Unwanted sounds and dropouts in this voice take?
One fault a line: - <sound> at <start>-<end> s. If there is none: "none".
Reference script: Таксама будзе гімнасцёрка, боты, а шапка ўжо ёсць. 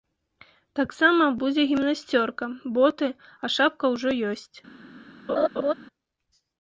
- laugh at 5.3-5.7 s